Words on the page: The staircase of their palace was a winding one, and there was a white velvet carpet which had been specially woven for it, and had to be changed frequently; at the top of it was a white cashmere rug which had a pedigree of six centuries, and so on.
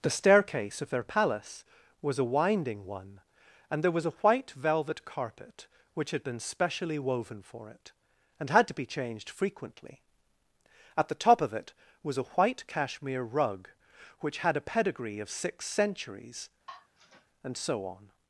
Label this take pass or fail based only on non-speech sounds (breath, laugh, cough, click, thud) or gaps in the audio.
fail